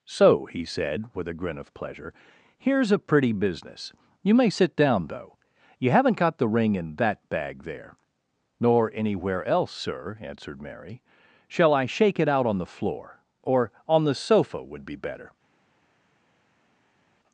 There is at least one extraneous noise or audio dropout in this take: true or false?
false